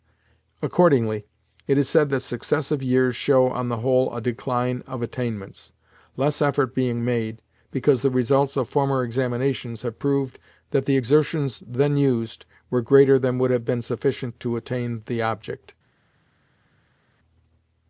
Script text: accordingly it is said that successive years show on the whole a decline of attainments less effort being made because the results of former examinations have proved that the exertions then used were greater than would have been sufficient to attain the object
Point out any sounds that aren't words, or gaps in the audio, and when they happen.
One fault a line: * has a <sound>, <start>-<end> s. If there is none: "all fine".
all fine